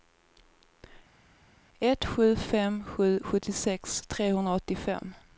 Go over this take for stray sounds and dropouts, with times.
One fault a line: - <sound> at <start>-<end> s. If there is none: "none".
none